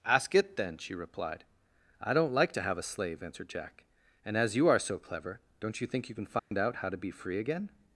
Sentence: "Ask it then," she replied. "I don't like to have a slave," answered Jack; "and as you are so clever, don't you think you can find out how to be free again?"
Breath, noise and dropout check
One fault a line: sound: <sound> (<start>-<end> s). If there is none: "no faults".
sound: dropout (6.4-6.5 s)